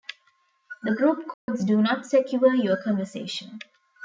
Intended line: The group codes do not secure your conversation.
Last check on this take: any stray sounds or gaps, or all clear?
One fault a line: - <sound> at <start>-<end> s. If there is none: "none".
- dropout at 1.3-1.5 s